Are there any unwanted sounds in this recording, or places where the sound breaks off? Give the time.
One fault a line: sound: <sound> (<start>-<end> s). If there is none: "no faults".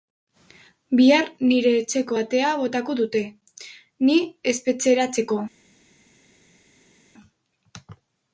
no faults